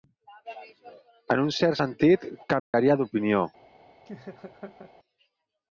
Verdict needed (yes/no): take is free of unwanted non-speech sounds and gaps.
no